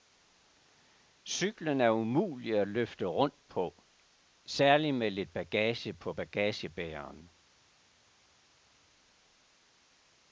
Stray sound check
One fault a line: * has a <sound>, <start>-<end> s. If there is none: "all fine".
all fine